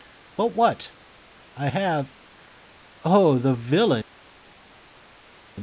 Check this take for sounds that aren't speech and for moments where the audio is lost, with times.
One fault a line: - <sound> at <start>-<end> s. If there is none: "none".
none